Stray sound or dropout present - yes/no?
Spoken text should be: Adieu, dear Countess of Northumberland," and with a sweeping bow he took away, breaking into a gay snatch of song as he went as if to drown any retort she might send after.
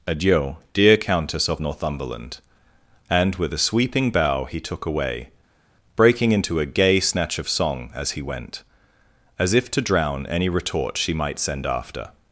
no